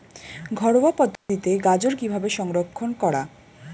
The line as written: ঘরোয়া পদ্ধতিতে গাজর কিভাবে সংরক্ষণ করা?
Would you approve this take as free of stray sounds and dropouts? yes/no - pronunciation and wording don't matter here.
no